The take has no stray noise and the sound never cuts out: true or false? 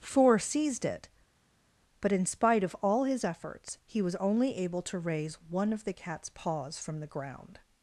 true